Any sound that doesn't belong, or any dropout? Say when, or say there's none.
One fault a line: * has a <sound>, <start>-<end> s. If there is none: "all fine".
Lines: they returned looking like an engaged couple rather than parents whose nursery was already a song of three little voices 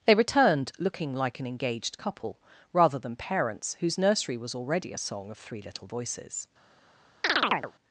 * has a chirp, 7.2-7.7 s